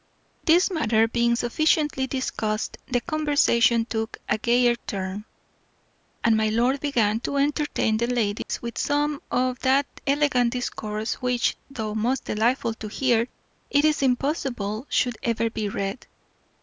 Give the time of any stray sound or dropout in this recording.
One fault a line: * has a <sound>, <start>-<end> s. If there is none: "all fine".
* has a dropout, 8.4-8.5 s